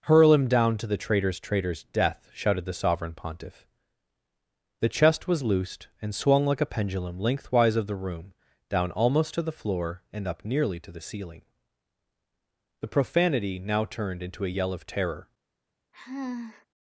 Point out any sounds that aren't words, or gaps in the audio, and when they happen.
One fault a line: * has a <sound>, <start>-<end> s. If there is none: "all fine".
* has a sigh, 15.9-16.7 s